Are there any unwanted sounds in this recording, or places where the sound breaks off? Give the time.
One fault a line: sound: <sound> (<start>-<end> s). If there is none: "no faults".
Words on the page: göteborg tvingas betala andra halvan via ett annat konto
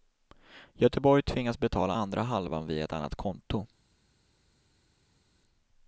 no faults